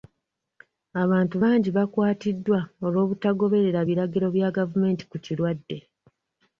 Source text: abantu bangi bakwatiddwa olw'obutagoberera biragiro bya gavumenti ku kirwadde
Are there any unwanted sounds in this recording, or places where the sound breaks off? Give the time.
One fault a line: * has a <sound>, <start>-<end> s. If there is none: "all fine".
all fine